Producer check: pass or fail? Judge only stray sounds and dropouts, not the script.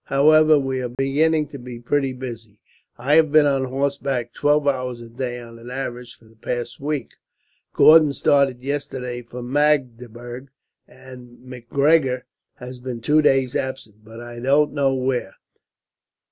fail